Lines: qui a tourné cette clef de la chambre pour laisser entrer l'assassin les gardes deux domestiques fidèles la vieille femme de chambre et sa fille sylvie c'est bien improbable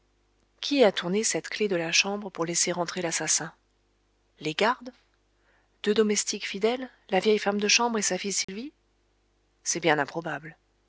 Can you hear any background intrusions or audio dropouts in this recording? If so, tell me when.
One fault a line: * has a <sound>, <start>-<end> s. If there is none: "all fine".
* has a dropout, 8.4-8.5 s